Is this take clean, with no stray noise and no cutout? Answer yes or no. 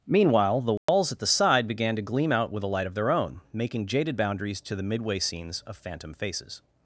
no